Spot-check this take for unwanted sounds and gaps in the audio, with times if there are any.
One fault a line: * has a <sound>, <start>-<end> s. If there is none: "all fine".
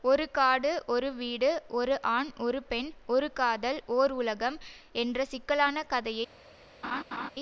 * has a laugh, 6.8-7.3 s